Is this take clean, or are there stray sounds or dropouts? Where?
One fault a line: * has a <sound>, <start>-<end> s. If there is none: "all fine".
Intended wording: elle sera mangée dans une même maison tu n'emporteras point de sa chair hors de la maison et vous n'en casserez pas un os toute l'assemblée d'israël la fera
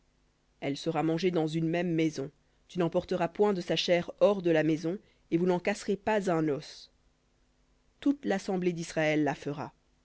all fine